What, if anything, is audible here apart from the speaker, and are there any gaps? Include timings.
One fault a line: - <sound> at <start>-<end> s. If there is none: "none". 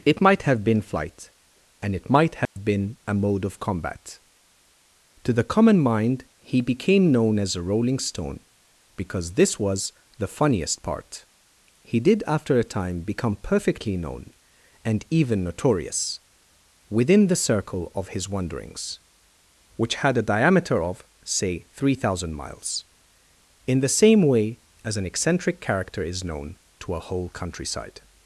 - dropout at 2.5-2.6 s